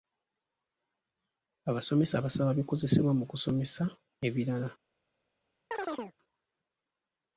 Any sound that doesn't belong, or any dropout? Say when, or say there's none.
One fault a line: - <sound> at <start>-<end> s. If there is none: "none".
- chirp at 5.7-6.1 s